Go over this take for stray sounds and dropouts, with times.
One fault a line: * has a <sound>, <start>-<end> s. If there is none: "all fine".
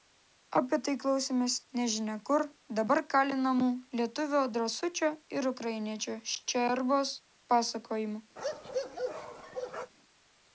* has a bark, 8.4-9.9 s